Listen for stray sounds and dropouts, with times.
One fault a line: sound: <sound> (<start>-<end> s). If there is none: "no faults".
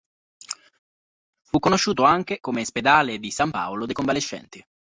no faults